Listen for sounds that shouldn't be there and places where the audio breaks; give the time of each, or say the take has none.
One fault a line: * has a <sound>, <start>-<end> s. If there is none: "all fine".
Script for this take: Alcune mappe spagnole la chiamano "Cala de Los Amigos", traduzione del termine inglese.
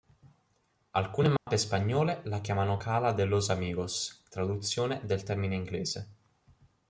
* has a dropout, 1.4-1.5 s